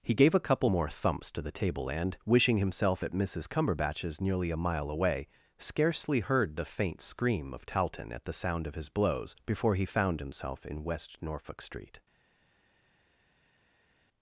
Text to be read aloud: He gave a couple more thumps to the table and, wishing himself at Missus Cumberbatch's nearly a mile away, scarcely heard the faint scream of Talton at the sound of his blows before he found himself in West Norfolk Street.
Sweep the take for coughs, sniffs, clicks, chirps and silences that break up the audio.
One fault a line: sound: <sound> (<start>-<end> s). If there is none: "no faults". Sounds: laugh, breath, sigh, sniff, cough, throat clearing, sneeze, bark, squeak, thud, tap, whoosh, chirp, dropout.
no faults